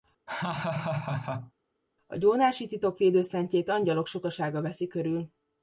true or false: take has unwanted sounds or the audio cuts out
true